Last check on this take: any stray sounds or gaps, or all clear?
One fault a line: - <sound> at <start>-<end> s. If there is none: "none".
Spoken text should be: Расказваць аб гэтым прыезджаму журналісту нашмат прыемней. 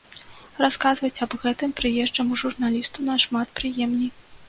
none